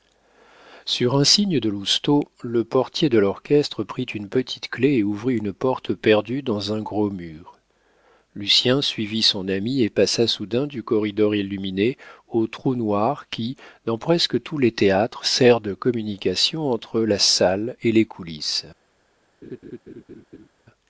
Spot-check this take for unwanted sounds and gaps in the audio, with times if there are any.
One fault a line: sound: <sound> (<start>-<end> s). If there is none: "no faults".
sound: laugh (19.4-20.5 s)